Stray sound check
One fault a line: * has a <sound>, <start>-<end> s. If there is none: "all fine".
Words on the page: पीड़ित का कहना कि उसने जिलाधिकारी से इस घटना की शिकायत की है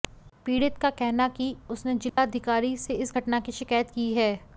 * has a dropout, 2.1-2.2 s